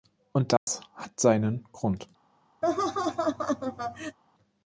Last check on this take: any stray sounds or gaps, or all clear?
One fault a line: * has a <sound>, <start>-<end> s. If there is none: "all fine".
* has a dropout, 0.6-0.7 s
* has a laugh, 2.6-4.2 s